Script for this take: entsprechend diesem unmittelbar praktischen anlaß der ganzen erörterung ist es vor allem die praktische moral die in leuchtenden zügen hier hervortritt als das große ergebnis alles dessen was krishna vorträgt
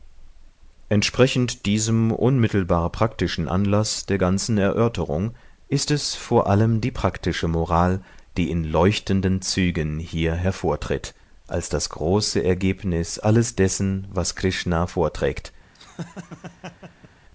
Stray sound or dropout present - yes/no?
yes